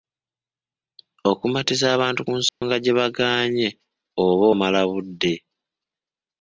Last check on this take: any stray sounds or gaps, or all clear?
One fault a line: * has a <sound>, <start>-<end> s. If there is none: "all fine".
* has a dropout, 2.5-2.6 s